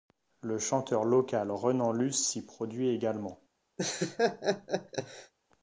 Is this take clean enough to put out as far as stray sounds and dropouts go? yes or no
no